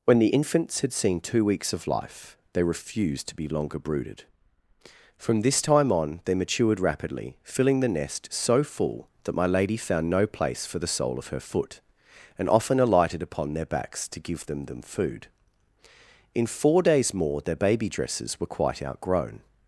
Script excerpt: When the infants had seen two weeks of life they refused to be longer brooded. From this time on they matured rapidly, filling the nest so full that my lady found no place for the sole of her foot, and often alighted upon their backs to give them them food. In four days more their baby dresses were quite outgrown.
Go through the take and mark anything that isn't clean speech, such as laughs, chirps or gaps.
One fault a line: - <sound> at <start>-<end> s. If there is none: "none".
none